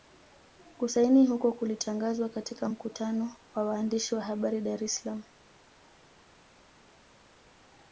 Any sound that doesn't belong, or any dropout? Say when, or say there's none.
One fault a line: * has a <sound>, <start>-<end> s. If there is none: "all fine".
all fine